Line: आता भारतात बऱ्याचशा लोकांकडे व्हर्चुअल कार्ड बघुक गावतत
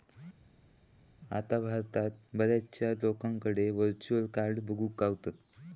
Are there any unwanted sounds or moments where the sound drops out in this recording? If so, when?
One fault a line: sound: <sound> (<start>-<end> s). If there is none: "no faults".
no faults